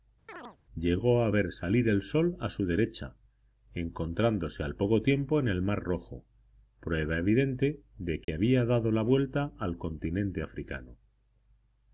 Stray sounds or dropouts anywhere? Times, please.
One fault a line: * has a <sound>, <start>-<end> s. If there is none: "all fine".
* has a chirp, 0.3-0.6 s
* has a dropout, 8.2-8.3 s